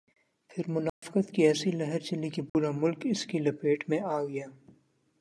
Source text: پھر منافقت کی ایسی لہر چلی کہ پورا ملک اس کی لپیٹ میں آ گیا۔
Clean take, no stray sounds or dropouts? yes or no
no